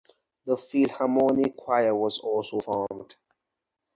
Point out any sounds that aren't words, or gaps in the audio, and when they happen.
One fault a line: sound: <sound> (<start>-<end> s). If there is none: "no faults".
no faults